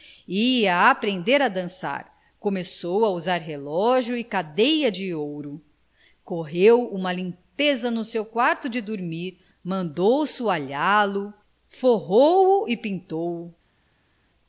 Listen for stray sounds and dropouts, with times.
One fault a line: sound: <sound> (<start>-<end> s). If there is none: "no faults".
no faults